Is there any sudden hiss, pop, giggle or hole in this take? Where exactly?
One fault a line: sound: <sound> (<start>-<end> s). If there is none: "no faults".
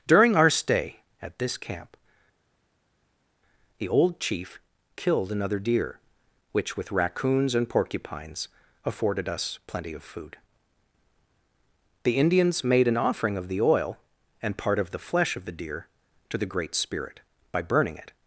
no faults